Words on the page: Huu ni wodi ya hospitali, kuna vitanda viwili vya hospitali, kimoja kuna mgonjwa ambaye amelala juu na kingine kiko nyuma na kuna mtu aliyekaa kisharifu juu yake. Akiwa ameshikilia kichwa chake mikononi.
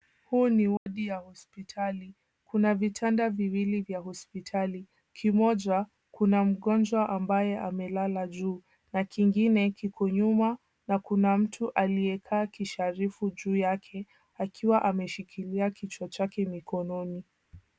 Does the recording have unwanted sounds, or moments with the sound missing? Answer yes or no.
yes